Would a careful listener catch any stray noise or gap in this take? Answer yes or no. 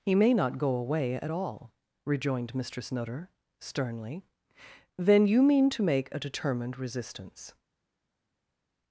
no